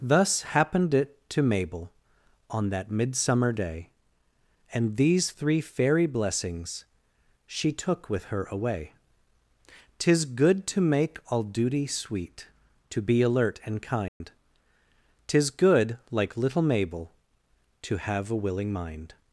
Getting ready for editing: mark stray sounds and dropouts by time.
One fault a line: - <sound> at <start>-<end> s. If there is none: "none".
- dropout at 14.1-14.2 s